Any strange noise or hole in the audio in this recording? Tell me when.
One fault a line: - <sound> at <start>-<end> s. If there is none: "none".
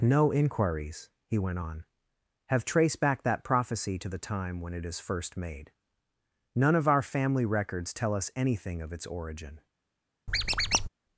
- squeak at 10.3-10.9 s